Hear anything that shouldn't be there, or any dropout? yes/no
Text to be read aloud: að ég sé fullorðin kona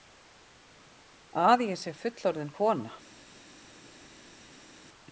no